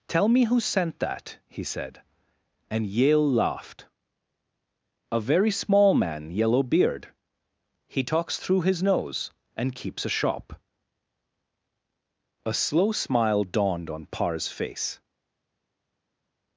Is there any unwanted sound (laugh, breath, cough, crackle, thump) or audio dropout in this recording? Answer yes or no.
no